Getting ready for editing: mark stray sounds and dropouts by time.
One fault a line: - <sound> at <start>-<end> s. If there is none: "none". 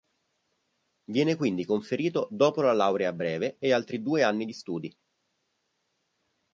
none